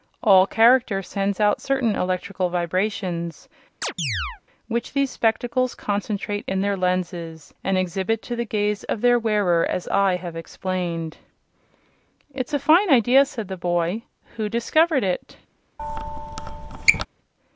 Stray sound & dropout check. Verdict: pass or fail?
fail